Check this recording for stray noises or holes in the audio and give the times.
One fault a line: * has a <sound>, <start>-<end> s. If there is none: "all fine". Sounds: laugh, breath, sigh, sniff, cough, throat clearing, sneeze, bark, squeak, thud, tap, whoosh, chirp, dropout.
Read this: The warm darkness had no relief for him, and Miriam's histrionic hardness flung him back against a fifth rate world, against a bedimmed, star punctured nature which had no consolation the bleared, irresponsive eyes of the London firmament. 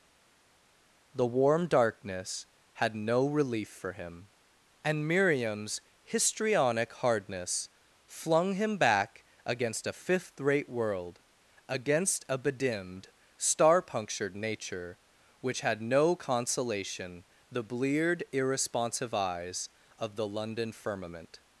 all fine